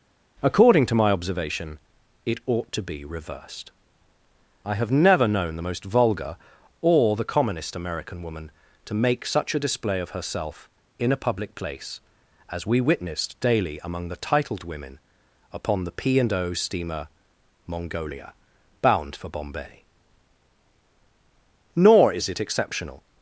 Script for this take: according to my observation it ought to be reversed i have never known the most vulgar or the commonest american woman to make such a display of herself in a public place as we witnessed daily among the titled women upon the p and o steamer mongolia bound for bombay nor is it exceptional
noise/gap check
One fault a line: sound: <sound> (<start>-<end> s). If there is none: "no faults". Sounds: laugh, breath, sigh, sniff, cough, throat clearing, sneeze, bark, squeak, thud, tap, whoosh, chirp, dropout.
no faults